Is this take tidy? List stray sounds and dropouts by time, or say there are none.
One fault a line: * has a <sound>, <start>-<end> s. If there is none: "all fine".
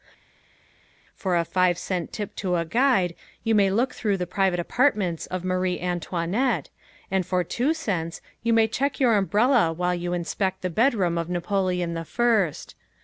all fine